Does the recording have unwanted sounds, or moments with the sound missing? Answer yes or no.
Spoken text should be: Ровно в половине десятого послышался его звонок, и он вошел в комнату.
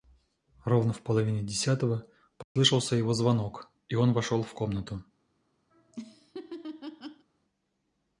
yes